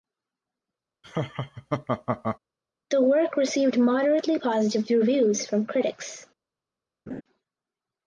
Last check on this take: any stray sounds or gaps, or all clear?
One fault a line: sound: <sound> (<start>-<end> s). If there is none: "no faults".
sound: laugh (1.0-2.4 s)
sound: laugh (7.1-7.2 s)